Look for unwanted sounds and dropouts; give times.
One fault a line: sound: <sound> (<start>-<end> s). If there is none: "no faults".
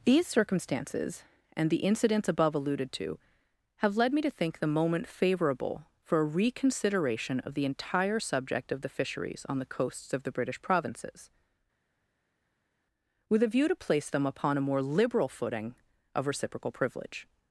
no faults